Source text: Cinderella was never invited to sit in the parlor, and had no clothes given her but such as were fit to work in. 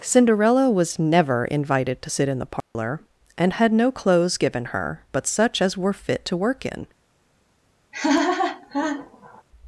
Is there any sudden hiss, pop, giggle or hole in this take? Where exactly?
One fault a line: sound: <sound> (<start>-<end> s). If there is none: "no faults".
sound: dropout (2.6-2.7 s)
sound: laugh (7.9-9.4 s)